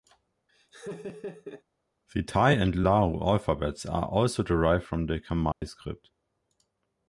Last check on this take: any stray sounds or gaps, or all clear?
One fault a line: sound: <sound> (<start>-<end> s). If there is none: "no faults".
sound: laugh (0.5-1.6 s)
sound: dropout (5.5-5.6 s)